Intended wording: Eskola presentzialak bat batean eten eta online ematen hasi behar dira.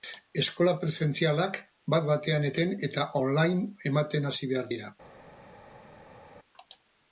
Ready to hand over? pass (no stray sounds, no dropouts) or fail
pass